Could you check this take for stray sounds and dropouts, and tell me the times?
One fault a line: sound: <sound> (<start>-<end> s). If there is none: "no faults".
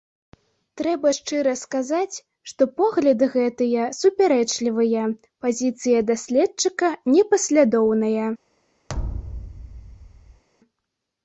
sound: thud (8.9-10.4 s)